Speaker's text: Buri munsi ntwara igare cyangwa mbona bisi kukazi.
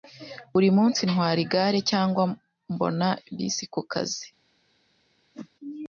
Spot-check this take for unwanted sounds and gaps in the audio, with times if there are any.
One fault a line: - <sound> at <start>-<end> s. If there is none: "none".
- whoosh at 5.3-5.5 s